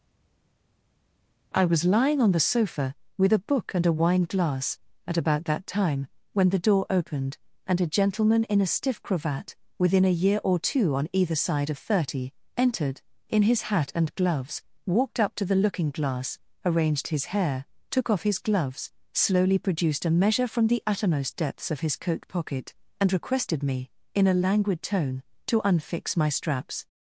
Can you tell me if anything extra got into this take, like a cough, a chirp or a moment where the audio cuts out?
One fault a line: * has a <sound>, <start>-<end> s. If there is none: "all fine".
all fine